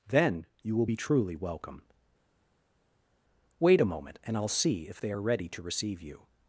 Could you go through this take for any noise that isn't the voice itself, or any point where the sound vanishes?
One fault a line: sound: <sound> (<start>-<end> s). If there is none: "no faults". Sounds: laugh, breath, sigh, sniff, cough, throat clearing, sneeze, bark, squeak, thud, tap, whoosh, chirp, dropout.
no faults